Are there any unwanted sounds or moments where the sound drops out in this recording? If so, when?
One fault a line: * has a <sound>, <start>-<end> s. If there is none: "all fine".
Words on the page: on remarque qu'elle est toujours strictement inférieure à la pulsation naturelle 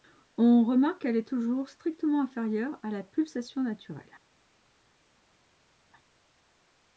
all fine